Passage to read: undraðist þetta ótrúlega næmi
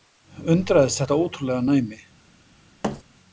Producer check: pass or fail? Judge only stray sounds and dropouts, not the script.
fail